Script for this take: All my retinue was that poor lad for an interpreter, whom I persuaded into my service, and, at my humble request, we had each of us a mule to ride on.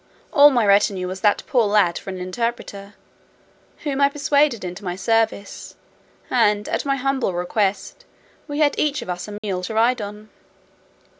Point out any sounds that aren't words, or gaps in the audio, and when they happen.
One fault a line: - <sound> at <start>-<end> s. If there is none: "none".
- dropout at 9.4-9.4 s